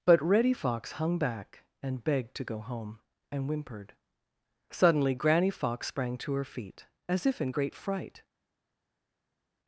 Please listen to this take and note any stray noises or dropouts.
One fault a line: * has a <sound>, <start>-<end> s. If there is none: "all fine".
all fine